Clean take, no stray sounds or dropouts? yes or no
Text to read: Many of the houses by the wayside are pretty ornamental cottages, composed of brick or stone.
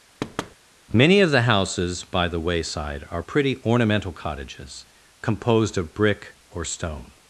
no